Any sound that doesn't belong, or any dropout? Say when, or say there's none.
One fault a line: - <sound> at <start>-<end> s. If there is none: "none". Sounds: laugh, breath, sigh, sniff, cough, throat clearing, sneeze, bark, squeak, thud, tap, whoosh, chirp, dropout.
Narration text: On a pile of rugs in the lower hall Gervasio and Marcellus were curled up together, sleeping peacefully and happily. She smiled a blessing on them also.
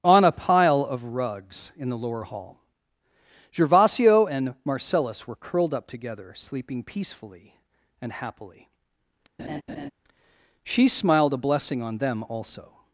- laugh at 9.4-9.9 s